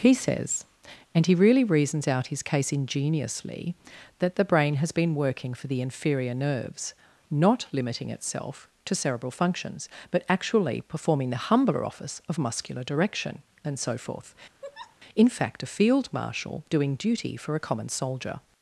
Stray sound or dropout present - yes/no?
yes